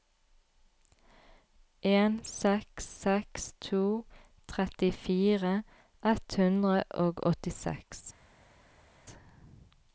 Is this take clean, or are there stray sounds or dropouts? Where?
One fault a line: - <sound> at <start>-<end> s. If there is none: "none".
none